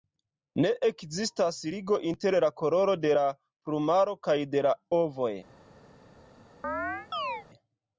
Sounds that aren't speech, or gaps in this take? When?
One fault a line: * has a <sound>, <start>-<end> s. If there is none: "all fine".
* has a chirp, 6.6-7.5 s